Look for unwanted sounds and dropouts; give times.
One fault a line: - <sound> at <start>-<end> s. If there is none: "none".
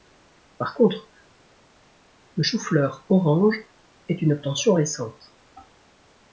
none